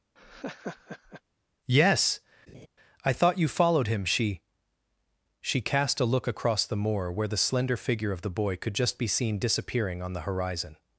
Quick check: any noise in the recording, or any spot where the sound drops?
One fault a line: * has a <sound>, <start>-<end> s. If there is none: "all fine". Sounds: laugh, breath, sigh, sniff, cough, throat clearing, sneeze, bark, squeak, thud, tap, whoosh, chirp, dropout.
* has a laugh, 0.2-1.2 s
* has a laugh, 2.5-2.7 s